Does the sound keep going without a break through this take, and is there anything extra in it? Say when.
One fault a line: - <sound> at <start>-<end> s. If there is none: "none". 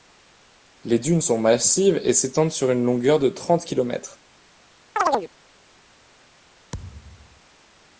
- chirp at 5.0-5.3 s
- thud at 6.7-7.4 s